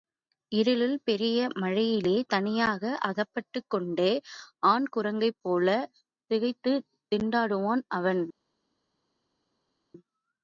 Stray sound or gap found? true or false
false